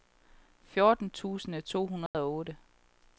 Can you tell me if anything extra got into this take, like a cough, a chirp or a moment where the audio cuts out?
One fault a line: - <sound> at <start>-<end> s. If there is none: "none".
- dropout at 2.1-2.1 s